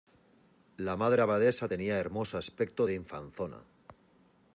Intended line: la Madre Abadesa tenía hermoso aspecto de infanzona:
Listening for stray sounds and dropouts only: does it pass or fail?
pass